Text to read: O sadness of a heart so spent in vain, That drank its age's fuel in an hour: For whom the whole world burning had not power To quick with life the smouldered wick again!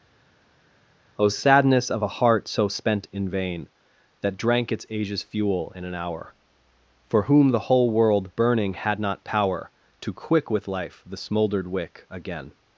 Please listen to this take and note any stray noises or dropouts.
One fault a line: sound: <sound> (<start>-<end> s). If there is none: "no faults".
no faults